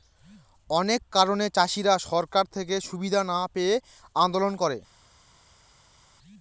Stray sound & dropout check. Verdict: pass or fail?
pass